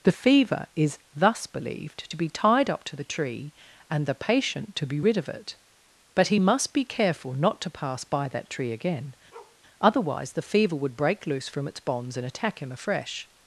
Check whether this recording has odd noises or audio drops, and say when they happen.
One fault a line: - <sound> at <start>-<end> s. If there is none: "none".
- bark at 9.3-9.6 s